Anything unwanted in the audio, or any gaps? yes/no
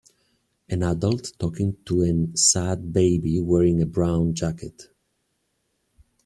no